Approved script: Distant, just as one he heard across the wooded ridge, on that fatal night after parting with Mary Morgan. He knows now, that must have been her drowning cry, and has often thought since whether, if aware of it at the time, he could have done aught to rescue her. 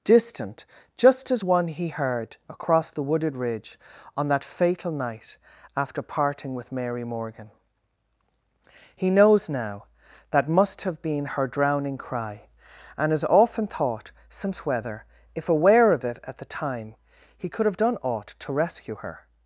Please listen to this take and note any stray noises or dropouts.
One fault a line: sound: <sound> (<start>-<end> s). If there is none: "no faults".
no faults